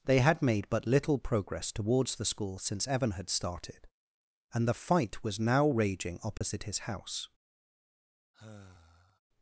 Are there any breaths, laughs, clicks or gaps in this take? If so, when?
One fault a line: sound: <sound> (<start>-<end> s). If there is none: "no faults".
sound: dropout (6.4-6.4 s)
sound: sigh (8.3-9.2 s)